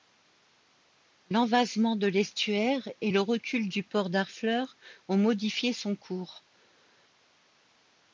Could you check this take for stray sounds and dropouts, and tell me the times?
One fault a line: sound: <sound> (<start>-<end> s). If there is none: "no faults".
no faults